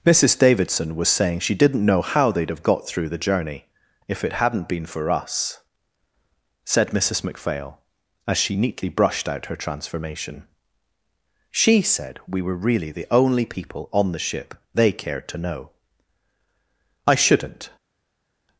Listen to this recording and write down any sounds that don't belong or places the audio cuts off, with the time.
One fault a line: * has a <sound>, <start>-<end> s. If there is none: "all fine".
all fine